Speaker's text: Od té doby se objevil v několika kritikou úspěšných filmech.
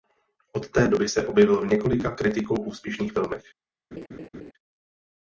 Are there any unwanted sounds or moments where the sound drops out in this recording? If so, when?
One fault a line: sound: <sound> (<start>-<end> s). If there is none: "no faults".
sound: laugh (3.9-4.5 s)